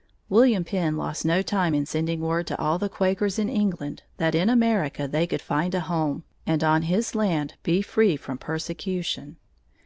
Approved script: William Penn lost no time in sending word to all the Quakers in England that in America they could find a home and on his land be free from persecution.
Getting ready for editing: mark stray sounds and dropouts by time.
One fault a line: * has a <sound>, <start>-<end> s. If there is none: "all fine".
all fine